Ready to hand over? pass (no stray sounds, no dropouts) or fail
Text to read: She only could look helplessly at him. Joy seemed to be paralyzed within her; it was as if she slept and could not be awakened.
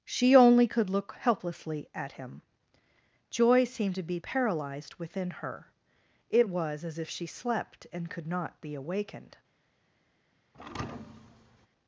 fail